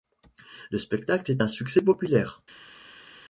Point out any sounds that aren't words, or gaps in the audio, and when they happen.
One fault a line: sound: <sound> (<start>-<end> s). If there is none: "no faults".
no faults